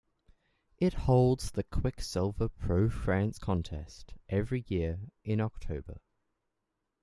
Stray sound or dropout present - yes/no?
no